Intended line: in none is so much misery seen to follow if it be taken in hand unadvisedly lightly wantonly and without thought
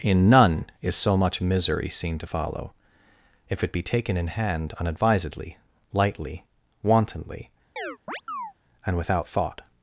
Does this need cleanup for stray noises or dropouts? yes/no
yes